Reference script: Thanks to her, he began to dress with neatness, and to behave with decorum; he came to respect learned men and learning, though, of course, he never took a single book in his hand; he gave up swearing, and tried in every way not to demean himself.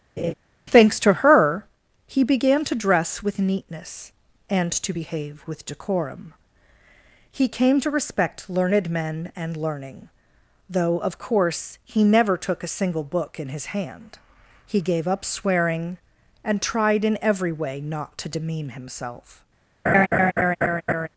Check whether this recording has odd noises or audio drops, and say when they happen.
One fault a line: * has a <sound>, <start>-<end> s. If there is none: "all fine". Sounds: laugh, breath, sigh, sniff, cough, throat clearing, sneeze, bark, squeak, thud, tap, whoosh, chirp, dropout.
* has a laugh, 0.2-0.3 s
* has a laugh, 19.9-21.1 s